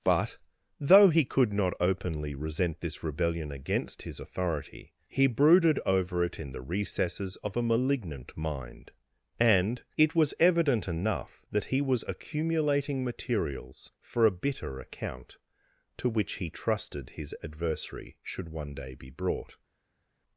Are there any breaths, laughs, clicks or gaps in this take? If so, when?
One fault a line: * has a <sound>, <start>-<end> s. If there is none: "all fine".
all fine